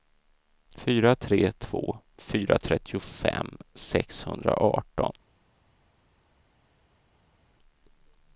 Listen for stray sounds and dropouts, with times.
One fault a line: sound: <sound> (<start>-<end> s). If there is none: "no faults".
no faults